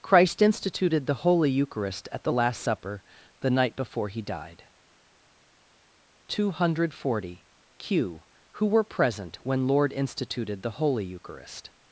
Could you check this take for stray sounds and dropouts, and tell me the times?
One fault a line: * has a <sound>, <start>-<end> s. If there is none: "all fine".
all fine